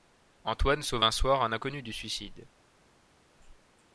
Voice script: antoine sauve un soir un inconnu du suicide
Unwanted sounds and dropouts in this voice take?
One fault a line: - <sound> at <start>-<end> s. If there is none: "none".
none